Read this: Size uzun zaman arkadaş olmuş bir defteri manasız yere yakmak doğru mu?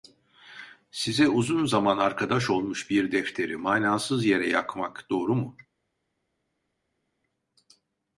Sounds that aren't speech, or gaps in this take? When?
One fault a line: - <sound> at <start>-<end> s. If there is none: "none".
none